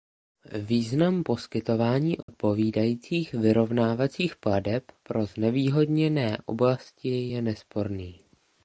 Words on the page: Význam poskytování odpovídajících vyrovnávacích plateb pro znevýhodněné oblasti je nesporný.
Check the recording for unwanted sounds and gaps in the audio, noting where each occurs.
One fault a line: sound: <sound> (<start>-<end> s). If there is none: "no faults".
sound: dropout (2.2-2.3 s)